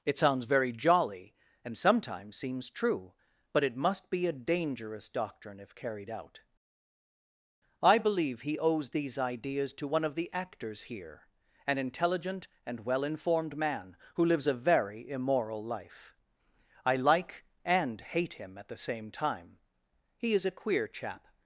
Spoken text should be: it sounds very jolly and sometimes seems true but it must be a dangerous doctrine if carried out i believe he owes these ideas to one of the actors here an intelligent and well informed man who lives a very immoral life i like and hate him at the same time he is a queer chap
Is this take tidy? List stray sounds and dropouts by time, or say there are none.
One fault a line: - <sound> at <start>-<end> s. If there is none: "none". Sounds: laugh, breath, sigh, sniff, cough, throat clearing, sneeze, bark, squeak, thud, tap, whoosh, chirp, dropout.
none